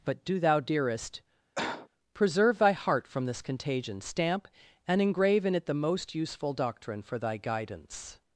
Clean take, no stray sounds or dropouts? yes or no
no